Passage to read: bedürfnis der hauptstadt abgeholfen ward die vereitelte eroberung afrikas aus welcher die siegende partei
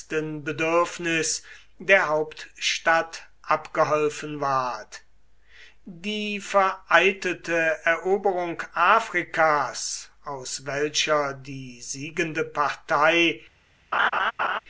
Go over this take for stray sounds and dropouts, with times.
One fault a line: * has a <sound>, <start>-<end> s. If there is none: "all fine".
* has a laugh, 13.9-14.6 s